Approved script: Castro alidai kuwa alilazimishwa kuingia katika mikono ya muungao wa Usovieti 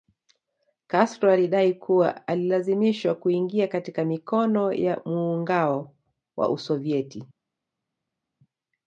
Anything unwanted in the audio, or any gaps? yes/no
no